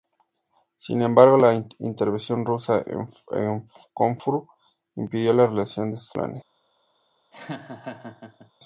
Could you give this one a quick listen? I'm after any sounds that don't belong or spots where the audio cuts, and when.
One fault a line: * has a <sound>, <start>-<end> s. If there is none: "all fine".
* has a laugh, 7.3-8.5 s